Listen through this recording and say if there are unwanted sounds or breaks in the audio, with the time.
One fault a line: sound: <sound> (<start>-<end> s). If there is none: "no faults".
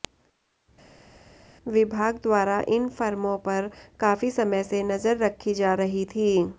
no faults